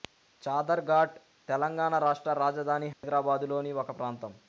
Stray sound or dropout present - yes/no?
yes